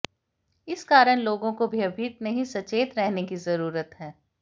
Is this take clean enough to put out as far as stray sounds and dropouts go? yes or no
yes